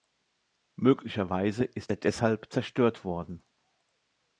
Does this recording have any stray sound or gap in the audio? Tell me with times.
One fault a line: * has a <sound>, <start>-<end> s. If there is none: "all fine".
all fine